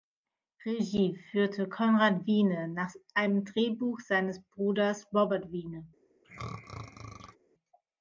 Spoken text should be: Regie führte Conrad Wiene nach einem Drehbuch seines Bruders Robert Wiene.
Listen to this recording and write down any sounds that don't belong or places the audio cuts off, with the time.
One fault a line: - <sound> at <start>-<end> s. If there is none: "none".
- throat clearing at 6.2-7.4 s